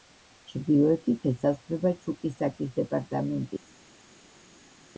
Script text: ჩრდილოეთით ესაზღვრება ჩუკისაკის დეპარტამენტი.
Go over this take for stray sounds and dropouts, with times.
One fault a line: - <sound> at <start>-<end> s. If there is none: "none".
none